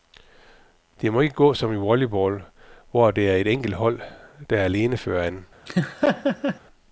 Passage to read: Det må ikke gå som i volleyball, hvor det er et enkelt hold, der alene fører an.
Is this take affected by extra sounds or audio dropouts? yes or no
yes